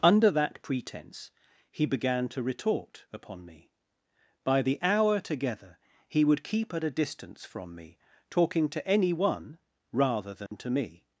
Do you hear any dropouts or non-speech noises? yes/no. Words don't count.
yes